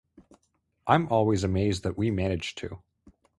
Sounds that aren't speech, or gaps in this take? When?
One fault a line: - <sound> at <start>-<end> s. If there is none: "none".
none